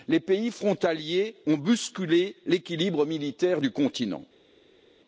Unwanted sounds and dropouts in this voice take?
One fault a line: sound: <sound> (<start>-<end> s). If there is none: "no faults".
no faults